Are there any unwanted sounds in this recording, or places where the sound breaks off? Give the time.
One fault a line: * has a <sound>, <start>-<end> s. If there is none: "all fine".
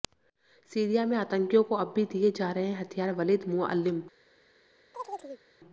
* has a chirp, 4.9-5.4 s